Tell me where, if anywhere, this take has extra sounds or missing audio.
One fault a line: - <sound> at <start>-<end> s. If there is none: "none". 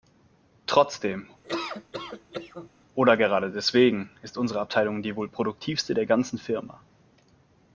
- laugh at 1.4-2.7 s